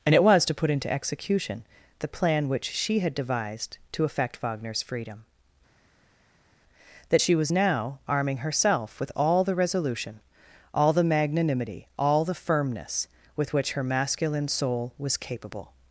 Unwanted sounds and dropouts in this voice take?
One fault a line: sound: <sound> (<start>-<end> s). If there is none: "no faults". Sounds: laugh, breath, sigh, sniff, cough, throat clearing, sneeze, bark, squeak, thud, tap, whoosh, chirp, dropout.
no faults